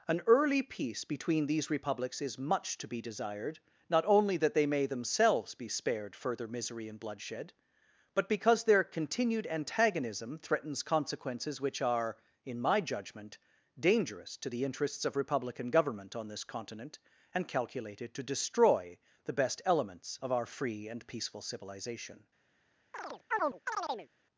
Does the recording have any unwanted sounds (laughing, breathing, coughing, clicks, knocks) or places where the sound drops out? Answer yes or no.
yes